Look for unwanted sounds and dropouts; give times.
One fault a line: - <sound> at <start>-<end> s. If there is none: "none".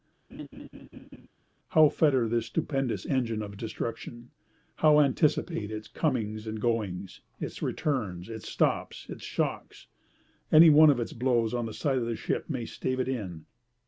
- laugh at 0.3-1.3 s